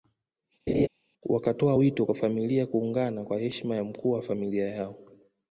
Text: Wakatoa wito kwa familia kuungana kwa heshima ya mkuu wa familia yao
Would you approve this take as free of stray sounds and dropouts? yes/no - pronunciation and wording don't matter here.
no